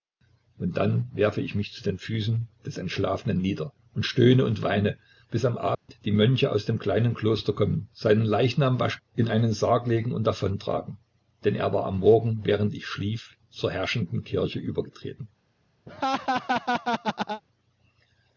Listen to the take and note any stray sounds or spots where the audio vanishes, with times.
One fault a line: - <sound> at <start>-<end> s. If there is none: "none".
- dropout at 5.7-5.9 s
- laugh at 15.9-17.4 s